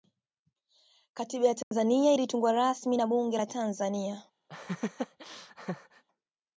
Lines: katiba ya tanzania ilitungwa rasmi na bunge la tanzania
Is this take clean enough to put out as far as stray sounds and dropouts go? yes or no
no